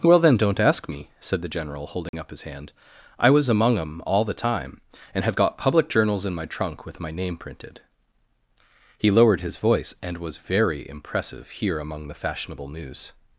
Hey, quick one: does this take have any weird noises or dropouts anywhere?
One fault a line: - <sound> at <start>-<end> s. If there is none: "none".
- dropout at 2.1-2.1 s